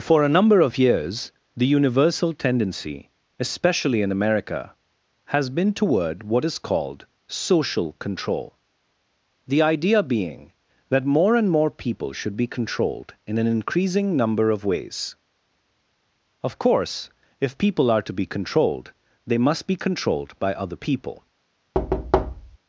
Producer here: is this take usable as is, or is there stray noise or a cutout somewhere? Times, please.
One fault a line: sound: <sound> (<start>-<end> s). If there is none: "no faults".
sound: thud (21.7-22.6 s)